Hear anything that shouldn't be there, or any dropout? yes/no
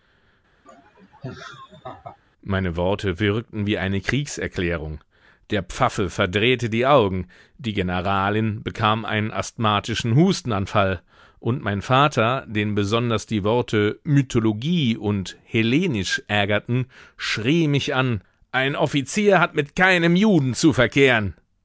yes